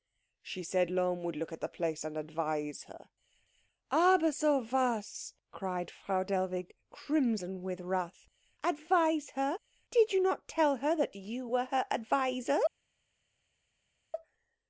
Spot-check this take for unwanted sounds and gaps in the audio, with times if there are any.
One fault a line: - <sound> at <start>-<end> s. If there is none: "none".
none